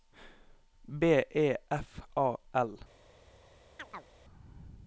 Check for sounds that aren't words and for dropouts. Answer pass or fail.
fail